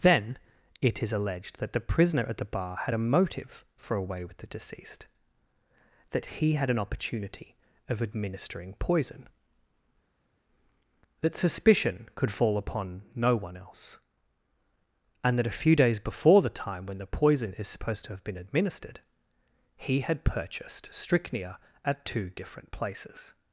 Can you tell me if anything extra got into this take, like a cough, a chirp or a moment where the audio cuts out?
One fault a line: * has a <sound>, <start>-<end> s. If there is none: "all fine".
all fine